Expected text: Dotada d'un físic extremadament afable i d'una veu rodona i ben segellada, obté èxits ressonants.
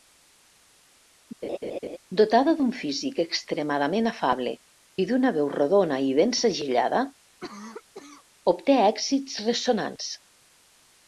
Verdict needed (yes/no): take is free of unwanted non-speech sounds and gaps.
no